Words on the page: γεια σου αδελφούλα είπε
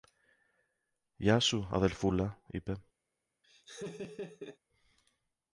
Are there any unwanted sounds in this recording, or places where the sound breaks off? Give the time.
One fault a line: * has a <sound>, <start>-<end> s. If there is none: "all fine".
* has a laugh, 3.4-4.6 s